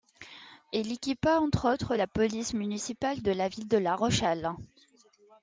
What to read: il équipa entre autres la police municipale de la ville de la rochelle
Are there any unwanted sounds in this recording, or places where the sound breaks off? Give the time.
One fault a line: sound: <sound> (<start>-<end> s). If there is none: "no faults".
no faults